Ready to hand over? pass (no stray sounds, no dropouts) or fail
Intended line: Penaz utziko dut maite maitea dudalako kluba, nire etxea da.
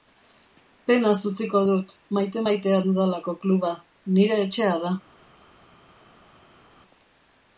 pass